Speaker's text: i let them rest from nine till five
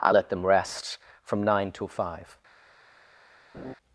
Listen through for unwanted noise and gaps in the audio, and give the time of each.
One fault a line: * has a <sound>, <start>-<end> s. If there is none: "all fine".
* has a laugh, 3.5-3.7 s